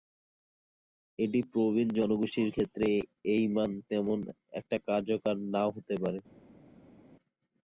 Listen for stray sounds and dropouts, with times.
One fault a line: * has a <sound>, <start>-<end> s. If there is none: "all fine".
all fine